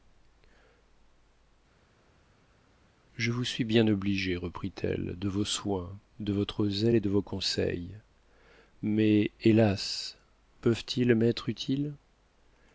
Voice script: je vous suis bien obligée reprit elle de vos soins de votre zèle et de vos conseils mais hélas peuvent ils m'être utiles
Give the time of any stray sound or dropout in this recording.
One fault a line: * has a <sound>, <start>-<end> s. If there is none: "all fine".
all fine